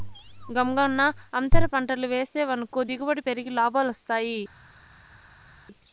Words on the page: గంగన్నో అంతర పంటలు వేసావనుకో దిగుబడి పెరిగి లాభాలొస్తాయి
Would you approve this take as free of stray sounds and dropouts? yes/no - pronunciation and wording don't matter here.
yes